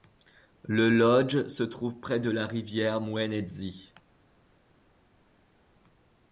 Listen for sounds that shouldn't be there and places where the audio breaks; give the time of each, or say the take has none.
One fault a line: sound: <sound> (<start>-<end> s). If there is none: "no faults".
no faults